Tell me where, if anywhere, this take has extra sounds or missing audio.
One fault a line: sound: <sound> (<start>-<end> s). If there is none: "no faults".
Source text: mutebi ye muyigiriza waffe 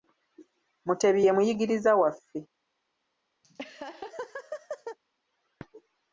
sound: laugh (3.4-5.0 s)